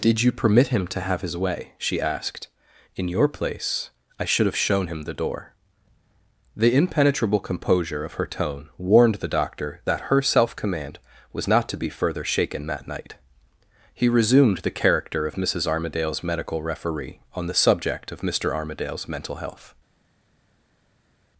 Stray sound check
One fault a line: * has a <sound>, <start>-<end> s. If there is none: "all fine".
all fine